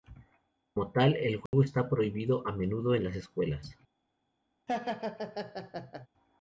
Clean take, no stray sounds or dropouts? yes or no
no